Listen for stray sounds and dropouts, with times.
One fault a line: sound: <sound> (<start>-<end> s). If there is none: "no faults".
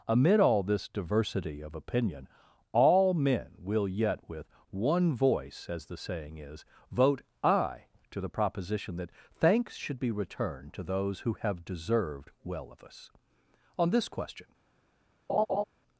sound: laugh (15.3-15.6 s)